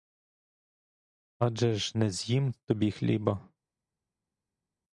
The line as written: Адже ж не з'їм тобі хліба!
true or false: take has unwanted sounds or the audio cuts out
false